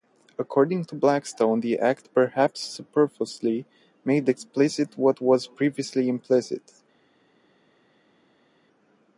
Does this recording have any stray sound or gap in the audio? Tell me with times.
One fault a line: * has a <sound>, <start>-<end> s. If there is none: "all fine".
all fine